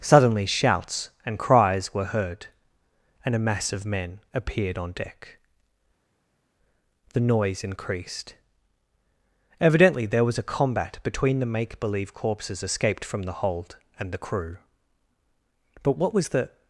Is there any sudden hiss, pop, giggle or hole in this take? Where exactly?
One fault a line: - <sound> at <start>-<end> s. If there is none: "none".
none